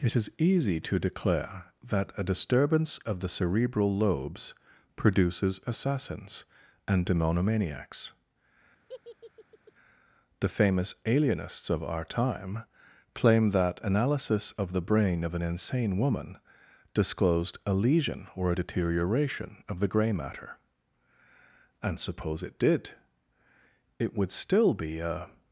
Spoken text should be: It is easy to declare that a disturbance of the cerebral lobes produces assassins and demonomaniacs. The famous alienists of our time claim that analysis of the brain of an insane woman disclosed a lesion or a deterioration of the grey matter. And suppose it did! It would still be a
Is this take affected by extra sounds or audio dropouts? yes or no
yes